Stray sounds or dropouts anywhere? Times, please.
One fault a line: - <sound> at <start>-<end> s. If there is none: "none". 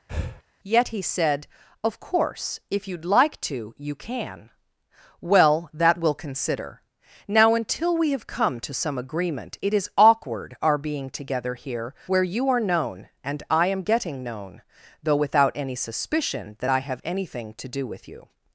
- breath at 0.1-0.4 s